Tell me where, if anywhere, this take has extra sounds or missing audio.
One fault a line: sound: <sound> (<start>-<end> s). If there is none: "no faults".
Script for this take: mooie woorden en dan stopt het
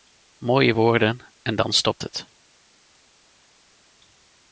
no faults